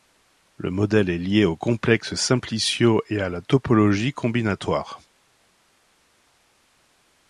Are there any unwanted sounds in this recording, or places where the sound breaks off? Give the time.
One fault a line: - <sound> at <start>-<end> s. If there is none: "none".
none